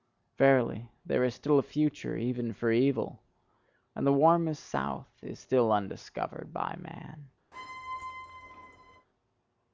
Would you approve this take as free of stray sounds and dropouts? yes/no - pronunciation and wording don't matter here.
no